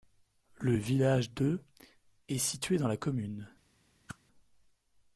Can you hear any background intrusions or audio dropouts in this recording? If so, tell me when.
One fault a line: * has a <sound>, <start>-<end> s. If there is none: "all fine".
* has a whoosh, 4.1-4.2 s